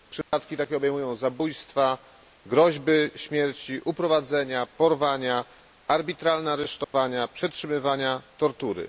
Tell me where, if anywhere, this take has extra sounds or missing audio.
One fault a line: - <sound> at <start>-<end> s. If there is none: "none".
- dropout at 0.2-0.3 s
- dropout at 6.8-6.9 s